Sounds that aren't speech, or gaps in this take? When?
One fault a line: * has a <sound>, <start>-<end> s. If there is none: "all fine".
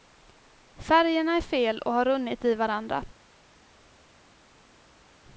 all fine